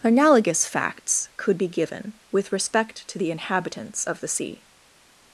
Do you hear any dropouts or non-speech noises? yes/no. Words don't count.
no